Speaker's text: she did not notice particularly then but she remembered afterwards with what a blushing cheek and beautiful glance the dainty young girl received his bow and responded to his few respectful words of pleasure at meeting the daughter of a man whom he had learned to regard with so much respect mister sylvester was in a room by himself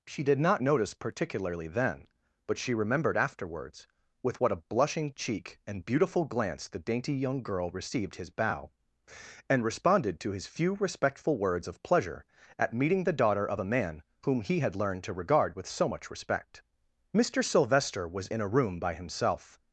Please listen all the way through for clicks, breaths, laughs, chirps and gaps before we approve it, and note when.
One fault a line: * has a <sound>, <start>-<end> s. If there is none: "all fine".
all fine